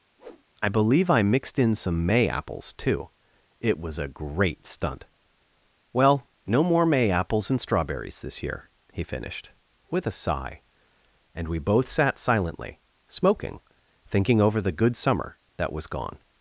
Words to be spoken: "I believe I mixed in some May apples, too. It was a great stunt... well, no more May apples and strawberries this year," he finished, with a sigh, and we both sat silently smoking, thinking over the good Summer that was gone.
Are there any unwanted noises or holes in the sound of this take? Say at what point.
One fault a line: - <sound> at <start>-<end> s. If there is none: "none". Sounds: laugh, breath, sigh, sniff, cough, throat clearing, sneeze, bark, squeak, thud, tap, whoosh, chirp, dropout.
- whoosh at 0.2-0.4 s